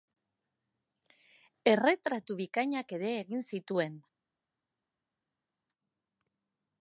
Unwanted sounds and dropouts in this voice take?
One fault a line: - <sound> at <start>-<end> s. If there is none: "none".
none